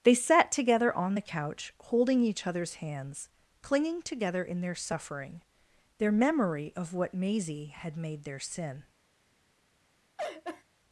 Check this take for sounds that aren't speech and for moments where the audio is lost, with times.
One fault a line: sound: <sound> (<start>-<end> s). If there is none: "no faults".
sound: laugh (10.2-10.6 s)